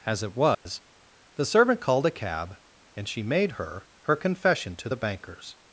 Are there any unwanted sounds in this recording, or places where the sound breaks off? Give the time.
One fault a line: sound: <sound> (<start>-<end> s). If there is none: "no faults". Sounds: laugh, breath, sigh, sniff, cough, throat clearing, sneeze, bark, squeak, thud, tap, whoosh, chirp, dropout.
sound: dropout (0.5-0.7 s)